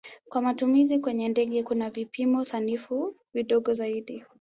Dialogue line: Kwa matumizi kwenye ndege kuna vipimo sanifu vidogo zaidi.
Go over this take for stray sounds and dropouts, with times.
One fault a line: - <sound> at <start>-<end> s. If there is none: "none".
none